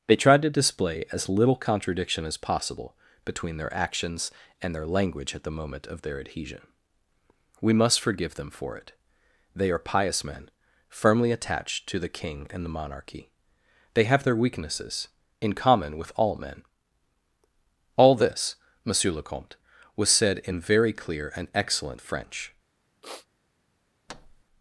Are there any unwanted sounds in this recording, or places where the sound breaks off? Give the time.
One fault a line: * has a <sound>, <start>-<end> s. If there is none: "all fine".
* has a sniff, 23.0-23.3 s
* has a thud, 24.1-24.4 s